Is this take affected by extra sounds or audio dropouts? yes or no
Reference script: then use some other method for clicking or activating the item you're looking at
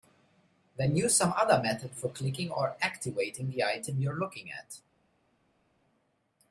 no